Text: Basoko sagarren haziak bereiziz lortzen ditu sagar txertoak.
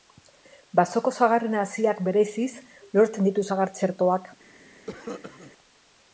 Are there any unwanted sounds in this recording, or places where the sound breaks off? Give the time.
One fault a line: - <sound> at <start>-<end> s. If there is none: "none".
- cough at 4.9-5.5 s